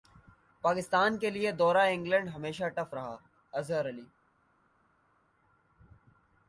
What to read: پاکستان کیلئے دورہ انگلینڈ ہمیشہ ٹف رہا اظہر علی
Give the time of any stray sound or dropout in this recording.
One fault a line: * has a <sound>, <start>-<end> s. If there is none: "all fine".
all fine